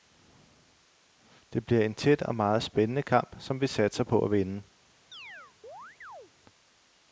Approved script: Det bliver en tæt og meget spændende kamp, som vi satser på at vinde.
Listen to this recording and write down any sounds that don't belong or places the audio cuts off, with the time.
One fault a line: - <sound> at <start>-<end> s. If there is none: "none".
- chirp at 5.1-6.3 s